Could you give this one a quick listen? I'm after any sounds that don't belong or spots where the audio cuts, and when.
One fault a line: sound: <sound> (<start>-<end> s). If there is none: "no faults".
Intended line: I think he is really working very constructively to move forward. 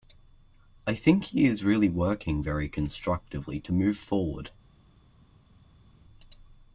no faults